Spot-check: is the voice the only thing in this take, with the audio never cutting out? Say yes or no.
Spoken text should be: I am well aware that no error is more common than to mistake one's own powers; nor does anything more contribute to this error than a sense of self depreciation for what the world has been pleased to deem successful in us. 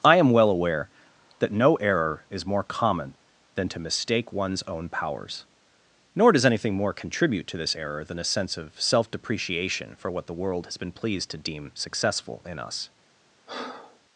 no